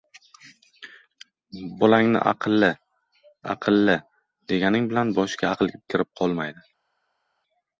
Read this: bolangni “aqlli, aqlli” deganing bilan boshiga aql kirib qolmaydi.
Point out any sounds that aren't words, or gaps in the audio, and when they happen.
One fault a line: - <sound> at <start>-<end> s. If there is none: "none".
none